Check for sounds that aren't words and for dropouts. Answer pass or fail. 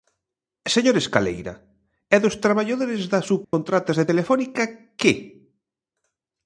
fail